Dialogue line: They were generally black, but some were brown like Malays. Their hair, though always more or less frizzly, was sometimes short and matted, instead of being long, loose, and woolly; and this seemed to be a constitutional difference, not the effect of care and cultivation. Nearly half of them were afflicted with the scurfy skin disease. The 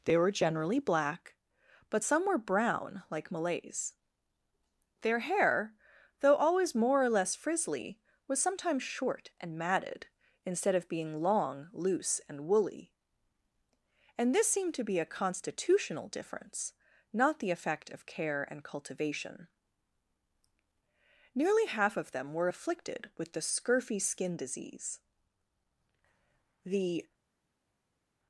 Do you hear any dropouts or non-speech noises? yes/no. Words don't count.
no